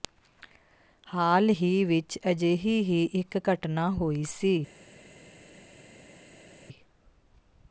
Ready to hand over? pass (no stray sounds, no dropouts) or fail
pass